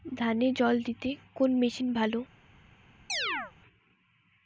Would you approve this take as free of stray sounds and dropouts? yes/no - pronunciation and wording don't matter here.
no